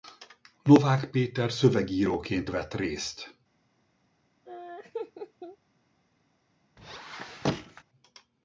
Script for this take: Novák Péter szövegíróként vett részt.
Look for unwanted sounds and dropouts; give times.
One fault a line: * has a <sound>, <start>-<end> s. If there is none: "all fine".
* has a laugh, 4.5-5.6 s
* has a squeak, 6.8-7.8 s